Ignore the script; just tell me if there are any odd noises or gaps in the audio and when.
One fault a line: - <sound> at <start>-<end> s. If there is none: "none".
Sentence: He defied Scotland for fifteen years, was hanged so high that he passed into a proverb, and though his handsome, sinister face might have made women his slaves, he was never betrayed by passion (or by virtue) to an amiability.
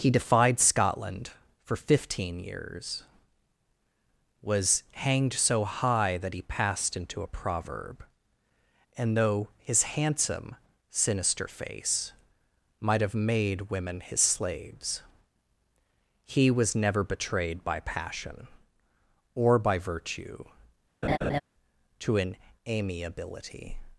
- laugh at 21.0-21.4 s